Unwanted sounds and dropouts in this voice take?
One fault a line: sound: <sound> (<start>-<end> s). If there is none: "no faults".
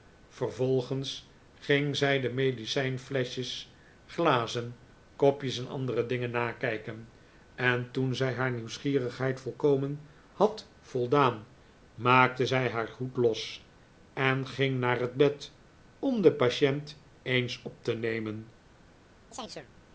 sound: chirp (19.3-19.7 s)